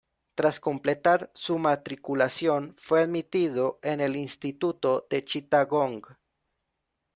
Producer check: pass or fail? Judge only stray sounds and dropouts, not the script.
pass